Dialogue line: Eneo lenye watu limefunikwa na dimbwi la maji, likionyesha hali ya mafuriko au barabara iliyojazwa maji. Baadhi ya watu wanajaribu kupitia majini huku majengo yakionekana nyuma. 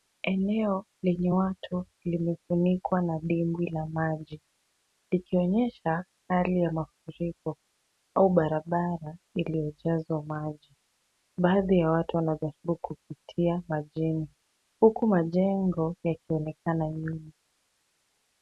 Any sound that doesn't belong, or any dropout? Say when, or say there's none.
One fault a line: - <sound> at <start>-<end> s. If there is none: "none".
none